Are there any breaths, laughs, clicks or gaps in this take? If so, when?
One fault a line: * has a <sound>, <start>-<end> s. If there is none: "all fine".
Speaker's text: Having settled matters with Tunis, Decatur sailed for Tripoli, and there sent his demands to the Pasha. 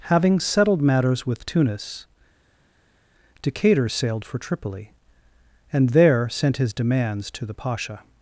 all fine